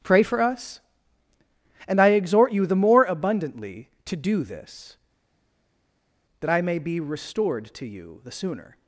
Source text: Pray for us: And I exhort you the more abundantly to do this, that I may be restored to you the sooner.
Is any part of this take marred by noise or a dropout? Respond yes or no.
no